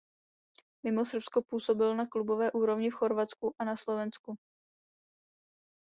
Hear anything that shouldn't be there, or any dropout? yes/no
no